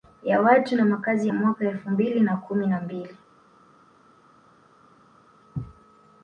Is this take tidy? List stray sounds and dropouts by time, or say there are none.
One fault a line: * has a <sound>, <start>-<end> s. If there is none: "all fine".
all fine